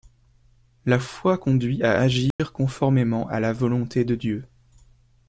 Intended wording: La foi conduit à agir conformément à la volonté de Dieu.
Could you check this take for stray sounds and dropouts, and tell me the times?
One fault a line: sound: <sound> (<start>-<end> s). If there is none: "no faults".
sound: dropout (2.3-2.4 s)